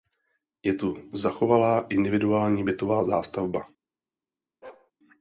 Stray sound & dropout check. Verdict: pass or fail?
fail